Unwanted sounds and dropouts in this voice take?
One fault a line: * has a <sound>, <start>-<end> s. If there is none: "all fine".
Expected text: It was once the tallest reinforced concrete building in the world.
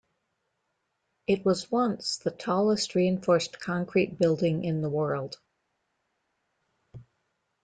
all fine